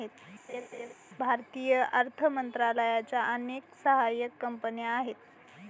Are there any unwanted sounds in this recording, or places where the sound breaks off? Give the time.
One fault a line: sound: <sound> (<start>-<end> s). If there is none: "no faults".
sound: laugh (0.5-0.9 s)